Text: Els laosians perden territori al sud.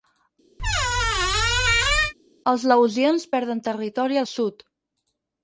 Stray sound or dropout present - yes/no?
yes